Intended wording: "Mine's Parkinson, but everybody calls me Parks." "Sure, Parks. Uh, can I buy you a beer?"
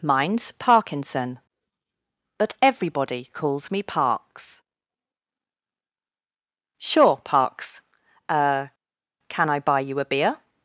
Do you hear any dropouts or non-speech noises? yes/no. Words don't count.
no